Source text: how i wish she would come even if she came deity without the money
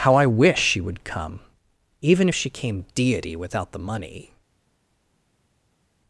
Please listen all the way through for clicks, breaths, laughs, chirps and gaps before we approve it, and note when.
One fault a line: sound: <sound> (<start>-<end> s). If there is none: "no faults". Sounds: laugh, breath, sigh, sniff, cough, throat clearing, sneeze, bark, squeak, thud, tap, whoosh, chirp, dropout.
no faults